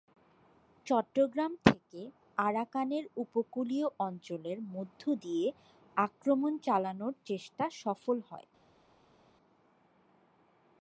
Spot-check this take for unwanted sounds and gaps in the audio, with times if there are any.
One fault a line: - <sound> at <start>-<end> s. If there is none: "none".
none